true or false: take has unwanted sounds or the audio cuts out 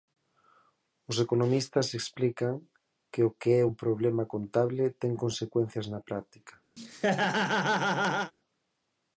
true